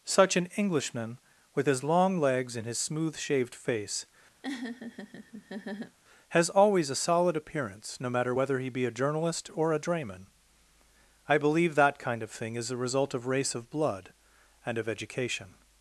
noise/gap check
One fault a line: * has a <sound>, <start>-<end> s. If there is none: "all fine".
* has a laugh, 4.4-6.0 s